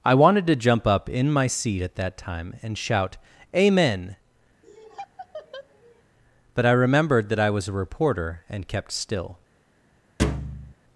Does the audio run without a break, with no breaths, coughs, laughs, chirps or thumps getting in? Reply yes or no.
no